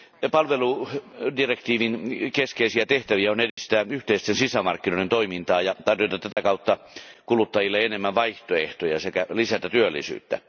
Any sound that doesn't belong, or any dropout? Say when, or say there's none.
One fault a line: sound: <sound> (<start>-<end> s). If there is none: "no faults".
sound: dropout (3.5-3.6 s)
sound: dropout (6.3-6.4 s)